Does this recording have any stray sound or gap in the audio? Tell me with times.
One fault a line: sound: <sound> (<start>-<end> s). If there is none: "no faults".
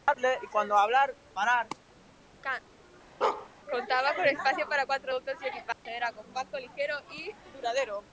sound: bark (3.2-3.5 s)
sound: dropout (5.7-5.9 s)